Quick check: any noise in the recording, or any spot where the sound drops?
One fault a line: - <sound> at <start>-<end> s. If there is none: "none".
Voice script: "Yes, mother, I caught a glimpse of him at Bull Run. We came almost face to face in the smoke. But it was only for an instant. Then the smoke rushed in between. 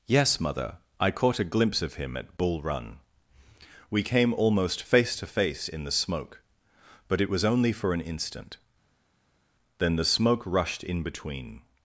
none